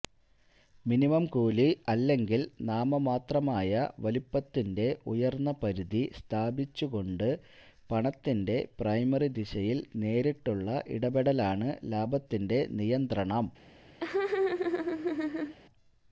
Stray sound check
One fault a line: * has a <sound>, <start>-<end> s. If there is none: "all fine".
* has a laugh, 14.0-15.6 s